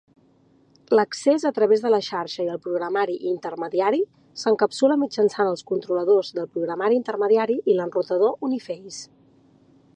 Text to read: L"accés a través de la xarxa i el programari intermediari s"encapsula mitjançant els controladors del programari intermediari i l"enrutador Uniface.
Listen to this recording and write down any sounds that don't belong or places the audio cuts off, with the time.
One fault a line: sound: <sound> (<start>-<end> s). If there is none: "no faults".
no faults